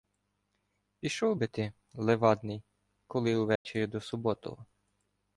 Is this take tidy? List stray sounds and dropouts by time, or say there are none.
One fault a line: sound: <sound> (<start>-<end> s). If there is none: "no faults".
sound: dropout (3.6-3.7 s)